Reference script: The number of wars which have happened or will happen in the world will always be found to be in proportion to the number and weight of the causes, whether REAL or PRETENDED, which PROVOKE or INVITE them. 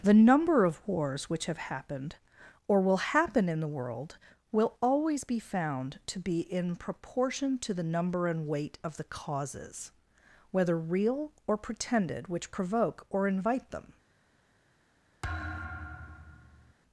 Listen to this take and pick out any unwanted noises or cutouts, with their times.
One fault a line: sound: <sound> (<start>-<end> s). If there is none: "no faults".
sound: thud (15.2-16.7 s)